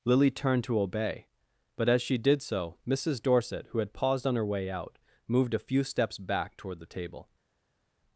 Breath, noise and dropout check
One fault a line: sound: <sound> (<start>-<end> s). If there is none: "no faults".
no faults